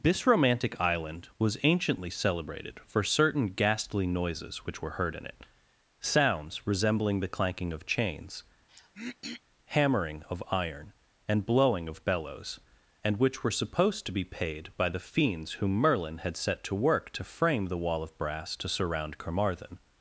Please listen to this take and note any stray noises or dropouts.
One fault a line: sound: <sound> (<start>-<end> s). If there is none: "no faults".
sound: throat clearing (8.7-9.4 s)